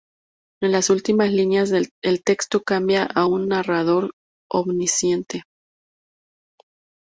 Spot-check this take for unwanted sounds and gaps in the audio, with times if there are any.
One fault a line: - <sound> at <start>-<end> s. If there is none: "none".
none